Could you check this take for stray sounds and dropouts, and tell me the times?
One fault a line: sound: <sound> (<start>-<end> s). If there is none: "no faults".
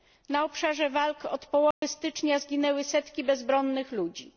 sound: dropout (1.7-1.8 s)